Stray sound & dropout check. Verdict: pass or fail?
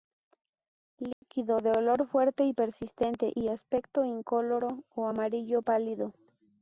fail